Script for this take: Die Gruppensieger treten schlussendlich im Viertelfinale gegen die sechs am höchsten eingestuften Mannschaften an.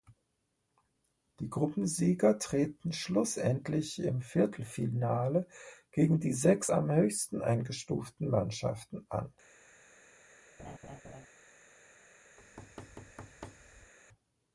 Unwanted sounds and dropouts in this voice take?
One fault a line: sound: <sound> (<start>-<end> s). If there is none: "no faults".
sound: laugh (10.6-11.3 s)
sound: thud (12.4-13.9 s)